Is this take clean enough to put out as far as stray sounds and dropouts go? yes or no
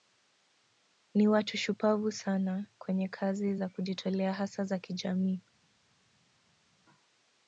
yes